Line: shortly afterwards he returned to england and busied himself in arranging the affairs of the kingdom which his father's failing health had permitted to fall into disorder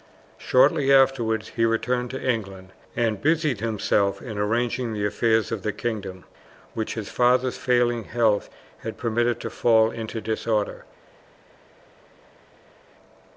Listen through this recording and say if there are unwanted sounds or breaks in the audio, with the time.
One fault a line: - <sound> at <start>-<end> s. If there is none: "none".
none